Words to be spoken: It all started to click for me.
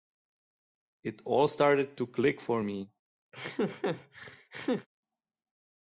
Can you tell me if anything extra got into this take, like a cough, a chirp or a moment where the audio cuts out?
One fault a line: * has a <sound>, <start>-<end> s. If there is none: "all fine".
* has a laugh, 3.3-4.9 s